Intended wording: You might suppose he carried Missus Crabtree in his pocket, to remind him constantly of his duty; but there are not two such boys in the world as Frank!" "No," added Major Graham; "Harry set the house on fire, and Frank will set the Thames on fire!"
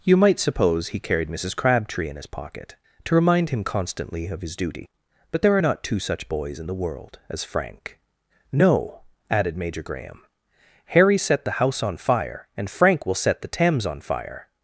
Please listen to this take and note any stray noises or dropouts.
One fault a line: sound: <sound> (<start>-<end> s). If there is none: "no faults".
no faults